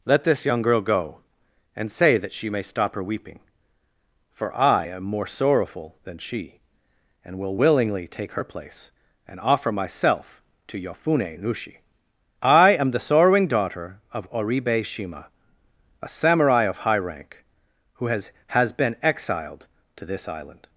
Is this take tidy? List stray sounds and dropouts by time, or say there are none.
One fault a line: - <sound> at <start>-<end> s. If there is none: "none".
none